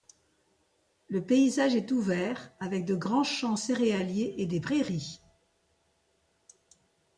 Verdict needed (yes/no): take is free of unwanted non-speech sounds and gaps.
yes